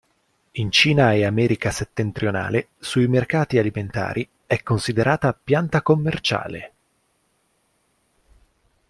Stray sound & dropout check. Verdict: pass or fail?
pass